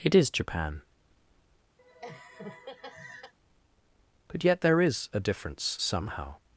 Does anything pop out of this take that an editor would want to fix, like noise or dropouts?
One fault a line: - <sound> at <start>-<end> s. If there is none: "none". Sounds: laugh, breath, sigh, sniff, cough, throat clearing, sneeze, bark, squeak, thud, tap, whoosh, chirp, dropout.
- laugh at 1.8-3.3 s